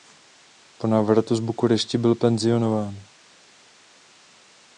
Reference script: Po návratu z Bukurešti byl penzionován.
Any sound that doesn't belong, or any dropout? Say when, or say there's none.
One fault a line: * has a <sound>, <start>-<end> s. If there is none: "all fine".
all fine